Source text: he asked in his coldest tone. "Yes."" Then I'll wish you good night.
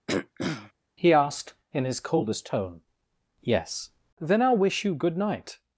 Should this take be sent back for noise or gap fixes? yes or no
yes